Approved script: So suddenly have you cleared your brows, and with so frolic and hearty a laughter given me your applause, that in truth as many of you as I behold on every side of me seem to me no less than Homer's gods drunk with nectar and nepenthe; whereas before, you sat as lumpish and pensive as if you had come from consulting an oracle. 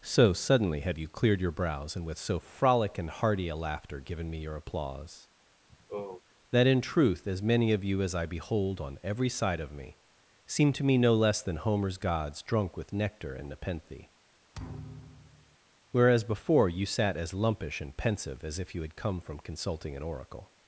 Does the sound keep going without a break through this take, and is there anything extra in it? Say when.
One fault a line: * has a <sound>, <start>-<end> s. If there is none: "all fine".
* has a sigh, 5.7-6.2 s
* has a thud, 14.5-15.6 s